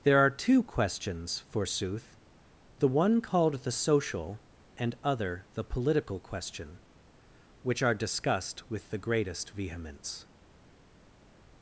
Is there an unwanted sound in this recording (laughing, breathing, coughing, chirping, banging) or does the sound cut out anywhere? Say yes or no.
no